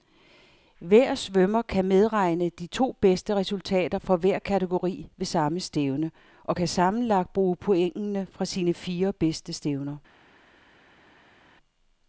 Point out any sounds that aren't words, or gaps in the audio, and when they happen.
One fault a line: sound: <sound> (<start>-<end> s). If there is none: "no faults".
no faults